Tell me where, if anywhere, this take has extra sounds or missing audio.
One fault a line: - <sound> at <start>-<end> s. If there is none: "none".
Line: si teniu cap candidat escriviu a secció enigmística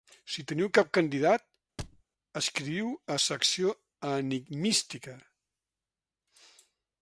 - thud at 1.8-2.0 s